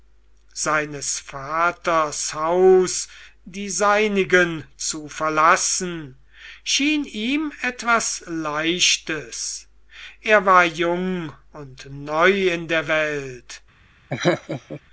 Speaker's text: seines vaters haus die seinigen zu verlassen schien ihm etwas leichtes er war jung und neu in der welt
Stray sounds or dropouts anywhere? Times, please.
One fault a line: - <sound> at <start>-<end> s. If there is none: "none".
- laugh at 14.1-14.8 s